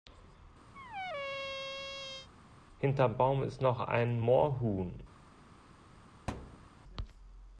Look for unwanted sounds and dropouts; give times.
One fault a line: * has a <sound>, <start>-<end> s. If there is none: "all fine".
* has a squeak, 0.7-2.3 s
* has a thud, 6.3-6.7 s